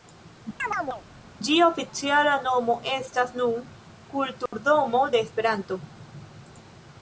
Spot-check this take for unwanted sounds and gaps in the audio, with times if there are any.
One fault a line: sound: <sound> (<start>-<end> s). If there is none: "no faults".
sound: chirp (0.6-1.0 s)
sound: dropout (4.5-4.5 s)